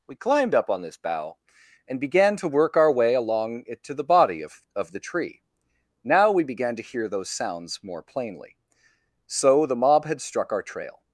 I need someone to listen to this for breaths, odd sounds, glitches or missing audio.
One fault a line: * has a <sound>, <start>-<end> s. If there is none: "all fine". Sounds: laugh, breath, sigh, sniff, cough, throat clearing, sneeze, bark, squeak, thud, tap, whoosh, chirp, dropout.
all fine